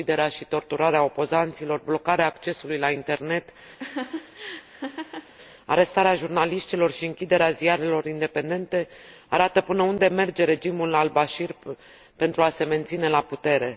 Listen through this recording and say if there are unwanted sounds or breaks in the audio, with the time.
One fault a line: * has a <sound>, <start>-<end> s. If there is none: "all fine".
* has a laugh, 3.8-5.3 s